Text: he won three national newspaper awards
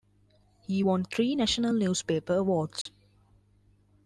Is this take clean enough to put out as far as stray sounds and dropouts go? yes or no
no